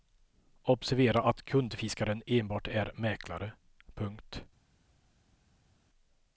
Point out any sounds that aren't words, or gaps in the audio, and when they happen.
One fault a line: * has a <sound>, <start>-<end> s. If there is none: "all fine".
all fine